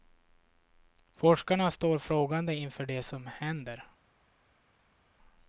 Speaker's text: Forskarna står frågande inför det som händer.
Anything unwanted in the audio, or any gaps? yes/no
no